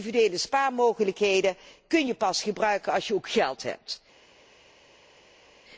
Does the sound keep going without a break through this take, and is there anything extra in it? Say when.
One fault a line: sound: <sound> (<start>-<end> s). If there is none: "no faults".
no faults